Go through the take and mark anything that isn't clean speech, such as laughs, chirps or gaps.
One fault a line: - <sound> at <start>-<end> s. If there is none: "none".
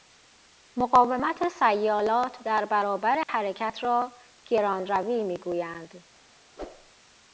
- dropout at 3.2-3.3 s
- whoosh at 6.6-6.9 s